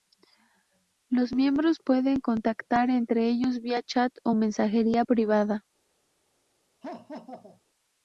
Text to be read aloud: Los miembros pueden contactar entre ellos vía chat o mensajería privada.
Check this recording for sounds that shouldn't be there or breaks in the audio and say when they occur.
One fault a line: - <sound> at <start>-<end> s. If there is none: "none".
- laugh at 6.8-7.6 s